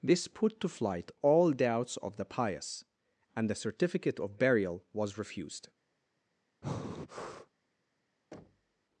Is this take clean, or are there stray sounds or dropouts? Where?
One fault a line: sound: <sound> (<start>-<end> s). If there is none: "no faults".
sound: breath (6.6-7.5 s)
sound: thud (8.3-8.8 s)